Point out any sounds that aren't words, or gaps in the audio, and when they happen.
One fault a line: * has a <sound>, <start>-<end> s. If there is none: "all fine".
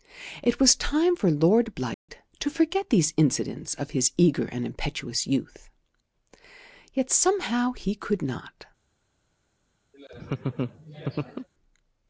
* has a dropout, 1.9-2.1 s
* has a laugh, 9.9-11.5 s